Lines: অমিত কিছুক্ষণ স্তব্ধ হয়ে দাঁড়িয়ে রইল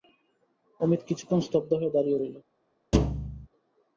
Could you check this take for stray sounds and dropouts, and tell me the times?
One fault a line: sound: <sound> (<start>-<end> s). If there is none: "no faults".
sound: thud (2.9-3.5 s)